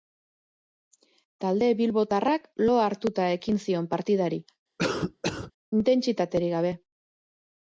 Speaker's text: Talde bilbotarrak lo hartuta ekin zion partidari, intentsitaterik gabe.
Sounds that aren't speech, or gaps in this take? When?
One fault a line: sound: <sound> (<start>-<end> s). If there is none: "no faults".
sound: cough (4.8-5.5 s)